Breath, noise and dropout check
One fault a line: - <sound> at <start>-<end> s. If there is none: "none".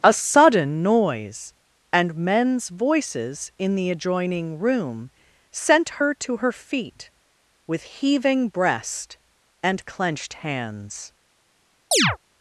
- chirp at 11.9-12.2 s